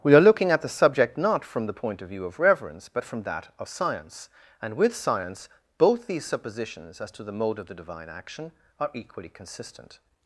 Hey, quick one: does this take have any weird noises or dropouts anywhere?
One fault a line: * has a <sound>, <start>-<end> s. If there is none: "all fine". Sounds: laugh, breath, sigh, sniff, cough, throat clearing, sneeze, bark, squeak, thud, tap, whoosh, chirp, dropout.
all fine